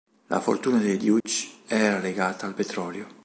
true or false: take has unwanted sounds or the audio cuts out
true